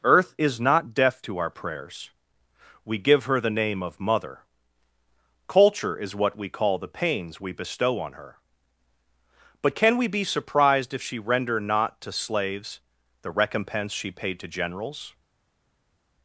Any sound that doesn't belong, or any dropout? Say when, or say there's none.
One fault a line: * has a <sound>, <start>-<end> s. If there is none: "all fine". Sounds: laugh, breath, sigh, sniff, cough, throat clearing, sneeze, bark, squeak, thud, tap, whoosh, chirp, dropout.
all fine